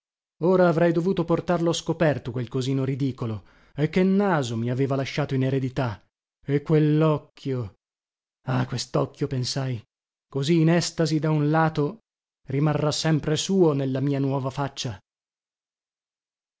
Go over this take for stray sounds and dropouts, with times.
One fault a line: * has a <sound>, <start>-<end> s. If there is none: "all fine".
all fine